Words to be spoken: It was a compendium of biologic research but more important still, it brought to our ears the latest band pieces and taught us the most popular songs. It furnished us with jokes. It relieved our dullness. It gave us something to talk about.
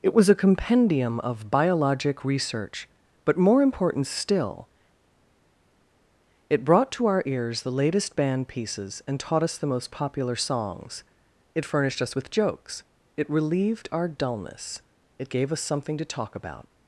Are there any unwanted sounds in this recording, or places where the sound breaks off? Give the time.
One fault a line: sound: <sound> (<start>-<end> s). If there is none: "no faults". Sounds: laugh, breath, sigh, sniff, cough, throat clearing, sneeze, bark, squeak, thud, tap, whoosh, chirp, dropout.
no faults